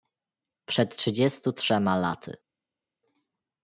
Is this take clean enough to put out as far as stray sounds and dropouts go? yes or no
yes